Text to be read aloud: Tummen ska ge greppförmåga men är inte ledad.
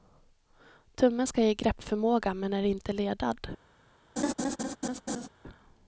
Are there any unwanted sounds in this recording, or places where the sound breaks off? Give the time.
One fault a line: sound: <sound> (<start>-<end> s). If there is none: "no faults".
sound: laugh (4.2-5.3 s)